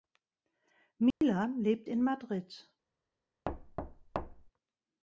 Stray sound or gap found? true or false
true